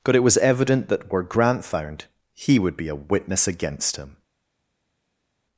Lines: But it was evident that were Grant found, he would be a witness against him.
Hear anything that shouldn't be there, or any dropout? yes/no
no